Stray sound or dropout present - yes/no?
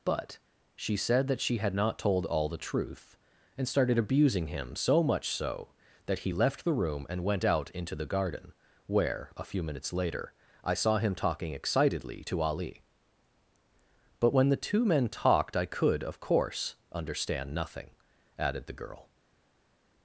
no